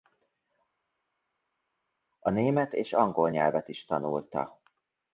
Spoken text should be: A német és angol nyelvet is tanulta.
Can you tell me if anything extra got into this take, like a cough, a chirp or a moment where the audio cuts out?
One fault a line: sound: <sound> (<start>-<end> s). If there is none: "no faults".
no faults